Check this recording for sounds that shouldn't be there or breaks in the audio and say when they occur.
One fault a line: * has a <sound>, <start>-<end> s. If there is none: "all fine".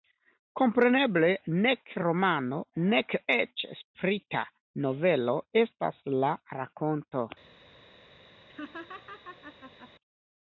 * has a laugh, 8.5-9.9 s